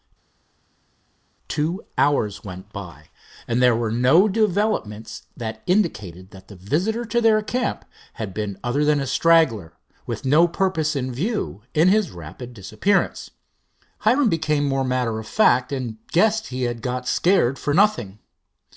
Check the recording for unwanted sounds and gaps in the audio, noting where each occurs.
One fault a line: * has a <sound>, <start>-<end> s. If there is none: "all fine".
all fine